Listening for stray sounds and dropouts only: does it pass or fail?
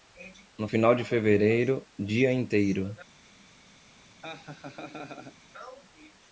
fail